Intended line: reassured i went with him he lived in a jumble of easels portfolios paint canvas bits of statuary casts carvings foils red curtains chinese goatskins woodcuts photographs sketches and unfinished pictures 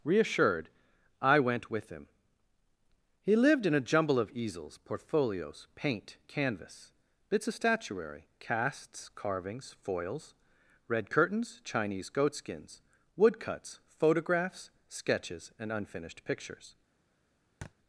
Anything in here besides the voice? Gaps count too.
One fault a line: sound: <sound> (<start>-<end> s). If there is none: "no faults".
sound: thud (17.6-17.7 s)